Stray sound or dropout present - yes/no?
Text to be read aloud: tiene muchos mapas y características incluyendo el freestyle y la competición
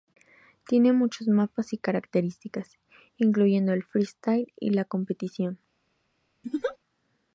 yes